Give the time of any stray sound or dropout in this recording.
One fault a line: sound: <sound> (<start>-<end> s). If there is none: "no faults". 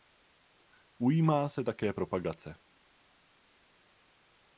no faults